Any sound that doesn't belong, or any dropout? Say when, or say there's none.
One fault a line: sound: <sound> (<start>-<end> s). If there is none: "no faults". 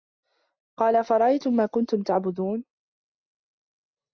no faults